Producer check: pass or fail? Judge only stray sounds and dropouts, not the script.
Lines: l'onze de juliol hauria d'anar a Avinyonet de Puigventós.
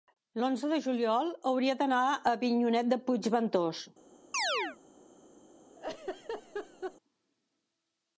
fail